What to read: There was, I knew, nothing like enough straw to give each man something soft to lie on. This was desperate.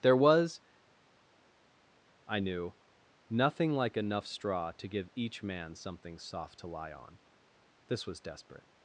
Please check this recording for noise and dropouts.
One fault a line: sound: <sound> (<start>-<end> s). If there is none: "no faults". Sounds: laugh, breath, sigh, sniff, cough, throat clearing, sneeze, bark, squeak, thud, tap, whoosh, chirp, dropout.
no faults